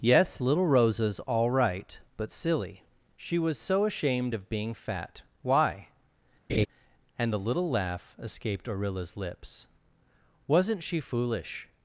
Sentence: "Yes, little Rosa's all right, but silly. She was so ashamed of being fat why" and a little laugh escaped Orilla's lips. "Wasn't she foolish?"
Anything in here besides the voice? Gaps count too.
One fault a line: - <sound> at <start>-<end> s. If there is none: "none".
- laugh at 6.5-6.7 s